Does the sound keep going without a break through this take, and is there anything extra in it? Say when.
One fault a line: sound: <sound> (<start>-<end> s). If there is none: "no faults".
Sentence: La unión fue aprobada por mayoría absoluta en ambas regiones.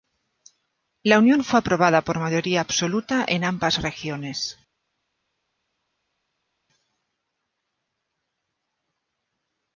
no faults